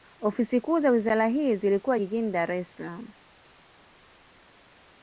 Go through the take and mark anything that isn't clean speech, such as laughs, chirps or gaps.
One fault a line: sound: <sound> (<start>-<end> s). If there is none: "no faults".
no faults